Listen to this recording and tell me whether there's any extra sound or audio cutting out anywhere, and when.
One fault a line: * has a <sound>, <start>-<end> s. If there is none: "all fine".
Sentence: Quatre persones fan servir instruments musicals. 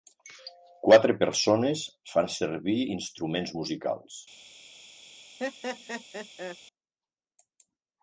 * has a laugh, 5.4-6.6 s